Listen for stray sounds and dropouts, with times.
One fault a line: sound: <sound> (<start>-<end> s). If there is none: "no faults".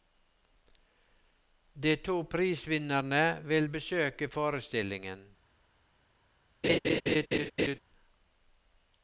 sound: laugh (6.6-7.8 s)